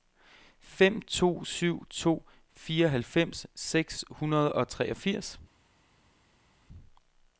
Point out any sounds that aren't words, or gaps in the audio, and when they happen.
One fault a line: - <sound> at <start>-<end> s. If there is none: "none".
none